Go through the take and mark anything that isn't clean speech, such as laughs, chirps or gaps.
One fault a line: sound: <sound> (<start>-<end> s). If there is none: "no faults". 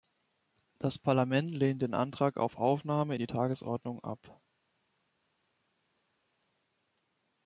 no faults